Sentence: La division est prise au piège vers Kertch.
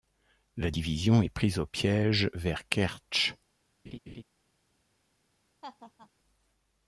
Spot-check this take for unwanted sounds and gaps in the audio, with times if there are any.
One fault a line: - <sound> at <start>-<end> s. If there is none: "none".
- laugh at 3.9-4.2 s
- laugh at 5.6-6.1 s